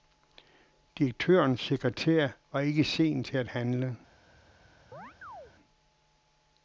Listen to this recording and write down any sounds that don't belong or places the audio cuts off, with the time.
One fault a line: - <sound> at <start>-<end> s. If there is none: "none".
- chirp at 4.9-5.5 s